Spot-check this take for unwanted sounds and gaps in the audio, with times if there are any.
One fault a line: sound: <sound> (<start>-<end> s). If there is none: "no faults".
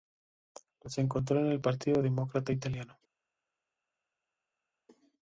no faults